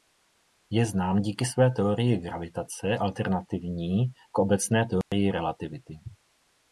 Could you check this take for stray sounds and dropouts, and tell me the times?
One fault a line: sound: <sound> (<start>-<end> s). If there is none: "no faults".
sound: dropout (5.0-5.1 s)